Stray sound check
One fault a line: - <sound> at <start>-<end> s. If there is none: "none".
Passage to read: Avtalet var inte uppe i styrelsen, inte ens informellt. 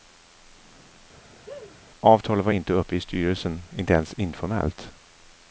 - laugh at 1.3-1.8 s